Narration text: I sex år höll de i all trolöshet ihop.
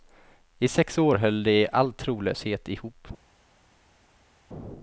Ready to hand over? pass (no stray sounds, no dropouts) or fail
pass